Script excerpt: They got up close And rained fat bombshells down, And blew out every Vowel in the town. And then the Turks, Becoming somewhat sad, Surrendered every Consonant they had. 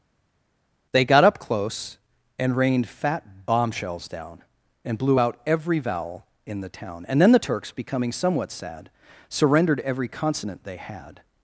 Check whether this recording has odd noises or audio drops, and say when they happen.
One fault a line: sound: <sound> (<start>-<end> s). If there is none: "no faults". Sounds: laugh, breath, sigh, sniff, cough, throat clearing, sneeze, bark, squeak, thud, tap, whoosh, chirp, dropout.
no faults